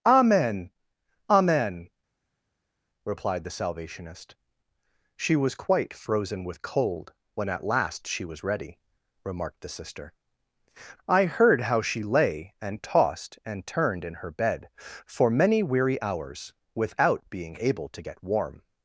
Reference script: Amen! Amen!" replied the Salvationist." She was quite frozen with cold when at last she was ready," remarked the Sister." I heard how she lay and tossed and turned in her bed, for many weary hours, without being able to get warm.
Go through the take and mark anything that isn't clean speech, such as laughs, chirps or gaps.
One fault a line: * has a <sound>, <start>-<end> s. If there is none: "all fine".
all fine